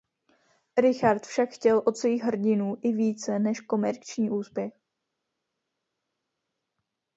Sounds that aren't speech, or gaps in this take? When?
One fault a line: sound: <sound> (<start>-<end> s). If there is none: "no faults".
no faults